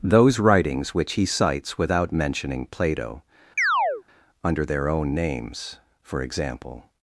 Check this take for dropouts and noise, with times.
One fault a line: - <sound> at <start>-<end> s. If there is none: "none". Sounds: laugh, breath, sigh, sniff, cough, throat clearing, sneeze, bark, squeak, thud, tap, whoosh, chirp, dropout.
- chirp at 3.6-4.0 s